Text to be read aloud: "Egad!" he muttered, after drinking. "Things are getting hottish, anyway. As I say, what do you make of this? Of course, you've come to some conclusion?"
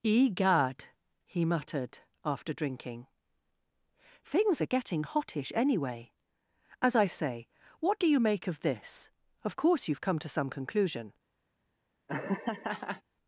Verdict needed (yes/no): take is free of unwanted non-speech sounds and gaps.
no